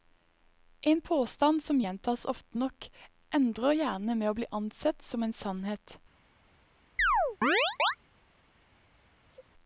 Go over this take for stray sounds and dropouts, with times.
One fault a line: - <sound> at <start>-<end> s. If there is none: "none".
- chirp at 7.0-8.0 s
- sneeze at 9.2-9.5 s